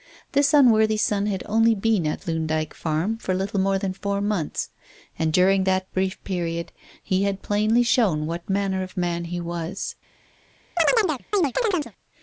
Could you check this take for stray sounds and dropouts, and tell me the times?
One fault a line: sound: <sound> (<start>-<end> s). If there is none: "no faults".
sound: chirp (10.8-11.9 s)